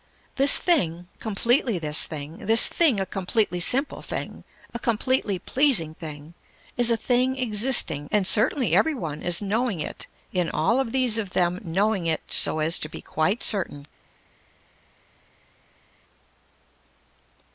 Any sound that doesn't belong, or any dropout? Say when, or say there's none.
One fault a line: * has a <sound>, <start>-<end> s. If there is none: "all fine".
all fine